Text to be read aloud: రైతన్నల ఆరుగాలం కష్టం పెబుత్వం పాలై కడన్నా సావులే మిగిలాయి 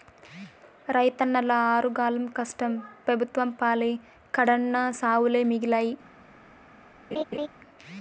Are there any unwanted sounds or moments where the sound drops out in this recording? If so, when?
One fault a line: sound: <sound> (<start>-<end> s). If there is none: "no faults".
sound: laugh (7.1-7.5 s)